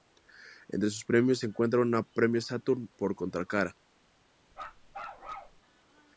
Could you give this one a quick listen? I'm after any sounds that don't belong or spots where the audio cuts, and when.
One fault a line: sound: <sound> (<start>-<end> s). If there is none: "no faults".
sound: bark (4.5-5.6 s)